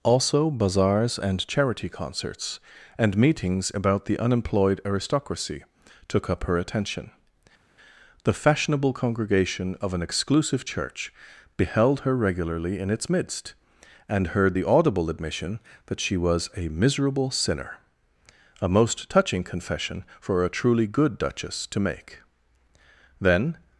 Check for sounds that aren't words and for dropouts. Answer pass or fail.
pass